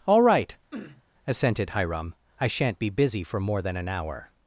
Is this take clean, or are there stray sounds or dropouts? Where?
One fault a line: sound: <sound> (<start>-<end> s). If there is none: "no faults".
sound: sniff (0.7-1.0 s)